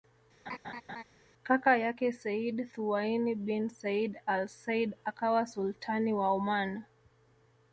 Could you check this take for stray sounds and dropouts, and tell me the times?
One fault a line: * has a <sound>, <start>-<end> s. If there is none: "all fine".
* has a laugh, 0.5-1.0 s